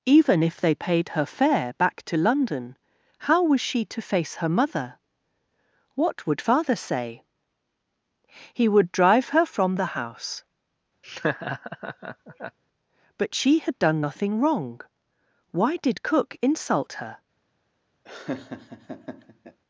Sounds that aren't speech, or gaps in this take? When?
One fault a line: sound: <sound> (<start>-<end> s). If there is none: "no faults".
sound: laugh (11.0-12.6 s)
sound: laugh (18.0-19.6 s)